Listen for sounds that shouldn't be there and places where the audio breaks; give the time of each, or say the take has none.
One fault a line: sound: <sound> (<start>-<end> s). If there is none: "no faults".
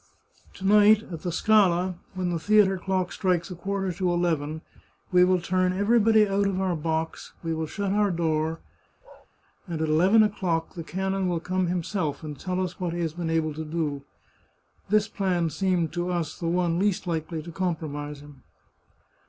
sound: bark (9.0-9.3 s)